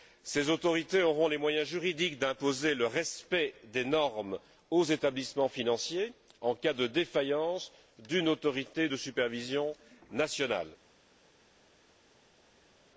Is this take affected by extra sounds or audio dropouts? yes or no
no